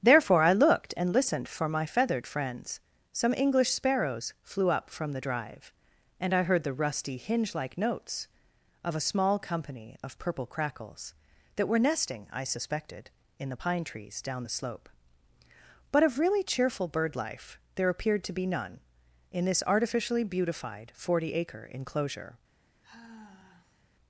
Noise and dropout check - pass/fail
fail